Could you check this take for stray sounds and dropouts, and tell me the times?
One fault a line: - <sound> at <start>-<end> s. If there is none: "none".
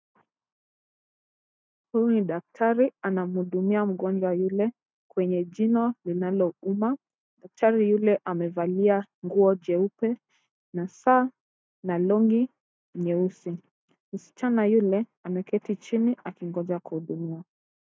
none